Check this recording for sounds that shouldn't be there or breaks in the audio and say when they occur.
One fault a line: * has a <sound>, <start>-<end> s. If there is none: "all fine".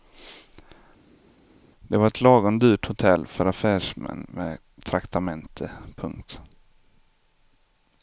all fine